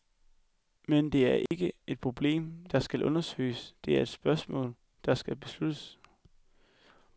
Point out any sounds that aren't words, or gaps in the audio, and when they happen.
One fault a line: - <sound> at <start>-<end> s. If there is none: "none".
- dropout at 1.5-1.5 s